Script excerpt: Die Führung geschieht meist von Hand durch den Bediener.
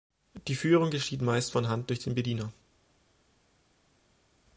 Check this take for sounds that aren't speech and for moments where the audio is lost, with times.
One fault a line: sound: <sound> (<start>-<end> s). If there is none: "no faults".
no faults